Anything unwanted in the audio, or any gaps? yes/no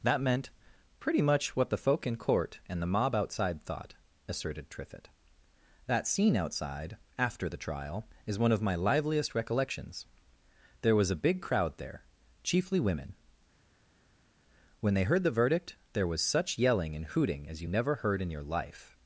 no